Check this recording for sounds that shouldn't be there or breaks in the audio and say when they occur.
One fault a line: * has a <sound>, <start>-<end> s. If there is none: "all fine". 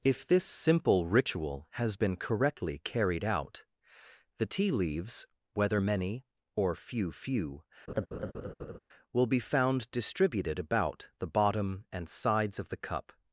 * has a laugh, 7.9-8.8 s